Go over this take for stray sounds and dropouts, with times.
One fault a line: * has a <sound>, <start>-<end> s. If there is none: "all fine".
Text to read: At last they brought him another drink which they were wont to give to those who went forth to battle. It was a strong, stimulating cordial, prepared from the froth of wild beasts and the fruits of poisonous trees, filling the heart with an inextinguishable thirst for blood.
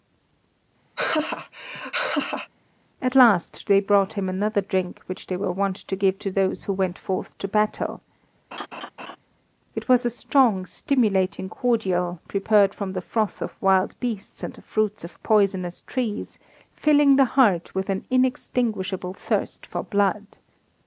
* has a laugh, 1.0-2.5 s
* has a laugh, 8.5-9.2 s